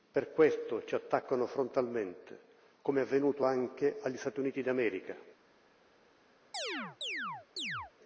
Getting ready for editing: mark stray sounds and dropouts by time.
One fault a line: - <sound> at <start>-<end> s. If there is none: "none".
- chirp at 6.5-7.9 s